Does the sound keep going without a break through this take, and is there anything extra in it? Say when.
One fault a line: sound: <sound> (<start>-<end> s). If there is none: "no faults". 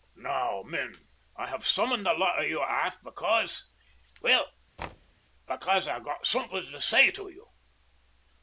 sound: thud (4.8-5.2 s)